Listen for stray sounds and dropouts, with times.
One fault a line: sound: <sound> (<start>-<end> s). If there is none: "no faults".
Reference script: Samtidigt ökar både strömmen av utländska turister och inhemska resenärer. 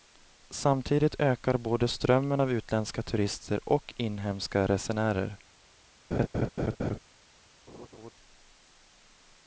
sound: laugh (6.1-7.0 s)
sound: laugh (7.7-8.1 s)